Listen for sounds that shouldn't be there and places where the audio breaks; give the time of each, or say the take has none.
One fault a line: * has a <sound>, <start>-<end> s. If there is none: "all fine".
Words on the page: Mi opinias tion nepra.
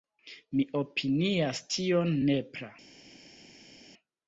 all fine